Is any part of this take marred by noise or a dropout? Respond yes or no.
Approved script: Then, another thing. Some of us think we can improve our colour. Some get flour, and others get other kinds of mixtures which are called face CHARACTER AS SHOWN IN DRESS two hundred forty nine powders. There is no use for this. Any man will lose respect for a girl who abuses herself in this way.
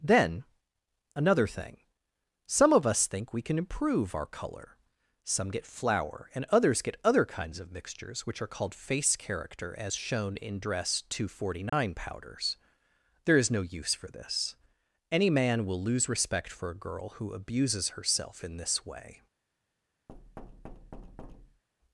yes